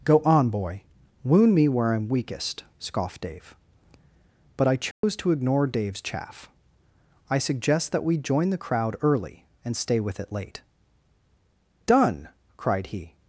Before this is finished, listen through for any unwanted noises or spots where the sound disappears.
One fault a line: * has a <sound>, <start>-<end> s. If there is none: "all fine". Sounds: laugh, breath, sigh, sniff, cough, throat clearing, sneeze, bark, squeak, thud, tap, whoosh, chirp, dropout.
* has a dropout, 4.9-5.0 s